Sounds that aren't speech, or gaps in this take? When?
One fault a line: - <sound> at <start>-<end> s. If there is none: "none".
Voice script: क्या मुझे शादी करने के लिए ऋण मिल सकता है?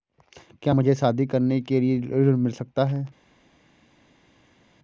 none